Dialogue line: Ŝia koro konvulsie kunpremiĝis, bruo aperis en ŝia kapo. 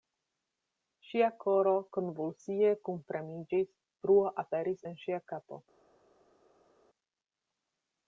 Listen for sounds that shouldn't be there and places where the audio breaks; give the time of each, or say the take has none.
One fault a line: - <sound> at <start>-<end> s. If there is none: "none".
none